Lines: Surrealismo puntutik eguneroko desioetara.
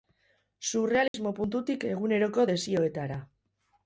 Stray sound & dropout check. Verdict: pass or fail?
fail